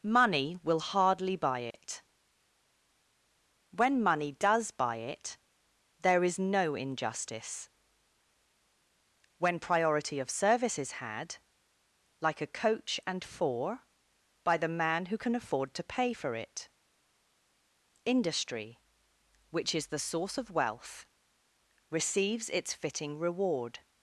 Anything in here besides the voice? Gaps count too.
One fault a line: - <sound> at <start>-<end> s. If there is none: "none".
- dropout at 1.7-1.7 s